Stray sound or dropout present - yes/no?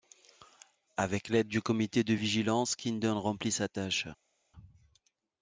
no